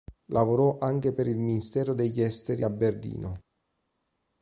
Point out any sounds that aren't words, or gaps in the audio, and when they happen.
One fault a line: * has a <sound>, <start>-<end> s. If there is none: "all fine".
all fine